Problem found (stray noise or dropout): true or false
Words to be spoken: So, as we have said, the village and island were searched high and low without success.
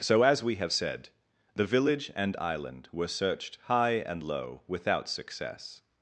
false